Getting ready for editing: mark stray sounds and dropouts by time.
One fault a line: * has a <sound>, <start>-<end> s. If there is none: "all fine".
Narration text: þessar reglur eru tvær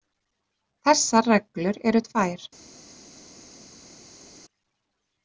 all fine